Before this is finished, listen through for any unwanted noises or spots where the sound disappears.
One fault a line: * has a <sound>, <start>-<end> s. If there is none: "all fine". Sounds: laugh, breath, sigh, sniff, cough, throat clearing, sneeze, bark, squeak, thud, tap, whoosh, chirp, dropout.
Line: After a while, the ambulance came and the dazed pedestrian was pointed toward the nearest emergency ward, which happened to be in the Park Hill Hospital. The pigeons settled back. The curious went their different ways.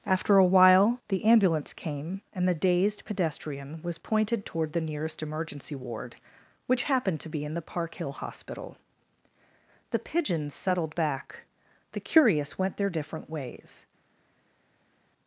all fine